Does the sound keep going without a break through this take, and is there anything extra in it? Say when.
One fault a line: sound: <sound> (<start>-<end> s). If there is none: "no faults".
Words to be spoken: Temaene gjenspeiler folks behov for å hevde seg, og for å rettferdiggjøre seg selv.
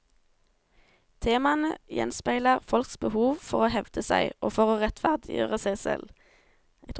no faults